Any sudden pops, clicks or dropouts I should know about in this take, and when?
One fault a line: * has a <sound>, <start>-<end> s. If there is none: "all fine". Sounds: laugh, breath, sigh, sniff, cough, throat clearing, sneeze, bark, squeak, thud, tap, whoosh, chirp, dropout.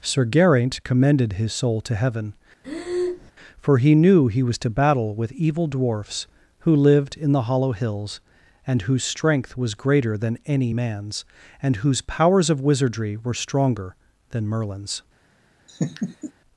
* has a breath, 2.6-3.3 s
* has a laugh, 15.7-16.3 s